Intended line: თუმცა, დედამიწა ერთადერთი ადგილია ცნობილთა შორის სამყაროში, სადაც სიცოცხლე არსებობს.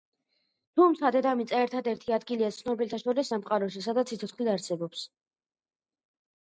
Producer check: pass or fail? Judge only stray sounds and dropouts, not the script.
pass